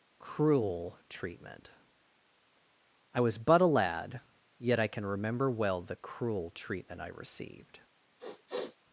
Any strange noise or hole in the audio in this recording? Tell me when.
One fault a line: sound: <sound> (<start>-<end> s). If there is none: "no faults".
sound: sniff (8.2-8.8 s)